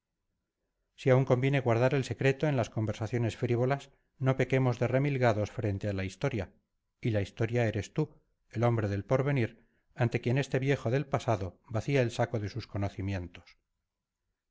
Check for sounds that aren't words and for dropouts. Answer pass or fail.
pass